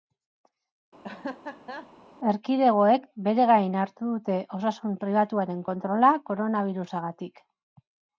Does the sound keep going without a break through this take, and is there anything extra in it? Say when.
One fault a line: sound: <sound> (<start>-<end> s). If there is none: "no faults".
sound: laugh (1.0-1.9 s)